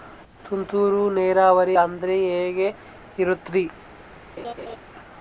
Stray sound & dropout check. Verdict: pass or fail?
fail